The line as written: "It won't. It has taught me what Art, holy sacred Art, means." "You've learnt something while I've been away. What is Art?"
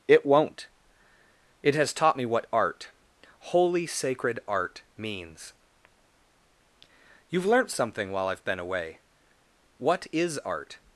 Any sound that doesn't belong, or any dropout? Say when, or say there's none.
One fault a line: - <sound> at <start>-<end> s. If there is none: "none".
none